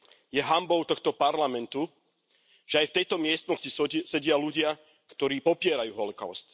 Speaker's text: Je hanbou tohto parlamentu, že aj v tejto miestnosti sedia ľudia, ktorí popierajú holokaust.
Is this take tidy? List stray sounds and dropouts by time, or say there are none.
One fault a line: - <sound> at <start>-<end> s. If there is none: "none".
none